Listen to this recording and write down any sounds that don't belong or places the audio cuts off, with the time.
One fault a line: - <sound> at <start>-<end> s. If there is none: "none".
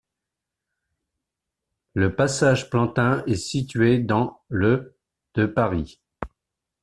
none